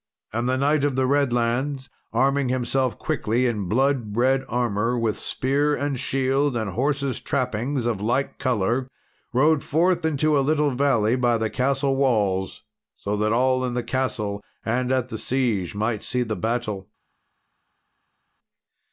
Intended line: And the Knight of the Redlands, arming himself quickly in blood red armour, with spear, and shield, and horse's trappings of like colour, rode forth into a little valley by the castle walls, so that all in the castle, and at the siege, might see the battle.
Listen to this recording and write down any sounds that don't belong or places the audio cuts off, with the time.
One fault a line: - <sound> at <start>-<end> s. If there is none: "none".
none